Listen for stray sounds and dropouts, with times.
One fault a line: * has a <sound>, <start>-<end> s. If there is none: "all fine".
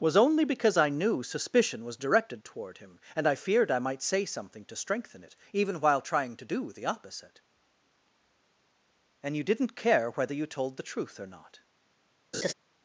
* has a laugh, 12.3-12.5 s